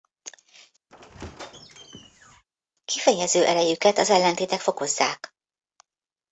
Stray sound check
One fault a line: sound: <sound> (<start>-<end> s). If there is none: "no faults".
sound: squeak (0.9-2.4 s)